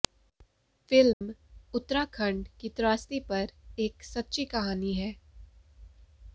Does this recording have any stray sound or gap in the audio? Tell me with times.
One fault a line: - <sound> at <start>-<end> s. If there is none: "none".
- dropout at 1.1-1.2 s